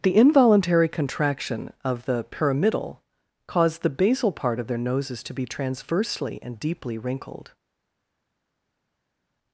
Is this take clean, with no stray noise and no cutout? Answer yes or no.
yes